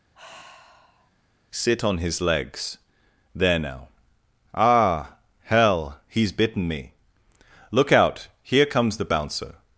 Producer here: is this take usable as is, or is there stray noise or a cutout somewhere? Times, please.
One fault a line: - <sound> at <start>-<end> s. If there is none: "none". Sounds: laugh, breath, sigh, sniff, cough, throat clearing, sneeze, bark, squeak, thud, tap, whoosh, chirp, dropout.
- sigh at 0.1-1.1 s